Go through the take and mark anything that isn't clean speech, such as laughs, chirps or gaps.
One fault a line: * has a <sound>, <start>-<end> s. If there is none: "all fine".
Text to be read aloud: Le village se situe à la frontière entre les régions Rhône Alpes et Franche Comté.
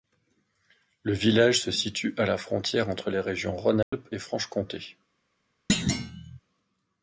* has a dropout, 3.8-3.9 s
* has a thud, 5.7-6.4 s